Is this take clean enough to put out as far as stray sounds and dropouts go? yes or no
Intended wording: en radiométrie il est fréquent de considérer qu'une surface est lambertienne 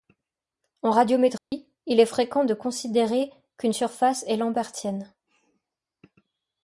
no